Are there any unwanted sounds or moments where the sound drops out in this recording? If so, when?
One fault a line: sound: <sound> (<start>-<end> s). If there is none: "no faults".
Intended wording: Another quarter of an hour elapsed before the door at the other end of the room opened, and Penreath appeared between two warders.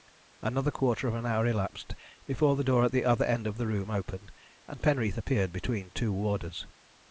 no faults